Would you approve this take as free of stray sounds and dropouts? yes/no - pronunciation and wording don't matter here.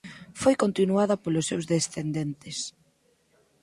yes